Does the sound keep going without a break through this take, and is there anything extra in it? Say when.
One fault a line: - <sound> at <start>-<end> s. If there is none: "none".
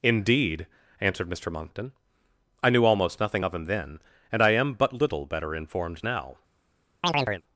- chirp at 7.0-7.4 s